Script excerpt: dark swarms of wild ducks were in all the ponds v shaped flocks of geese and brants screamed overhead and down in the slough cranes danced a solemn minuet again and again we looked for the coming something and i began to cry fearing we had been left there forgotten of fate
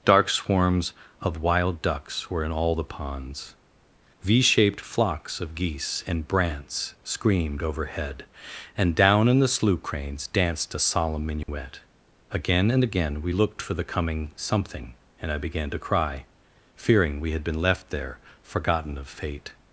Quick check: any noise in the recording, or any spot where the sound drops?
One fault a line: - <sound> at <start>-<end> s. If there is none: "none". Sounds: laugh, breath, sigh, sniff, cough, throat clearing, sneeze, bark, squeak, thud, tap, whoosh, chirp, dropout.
- dropout at 11.4-11.5 s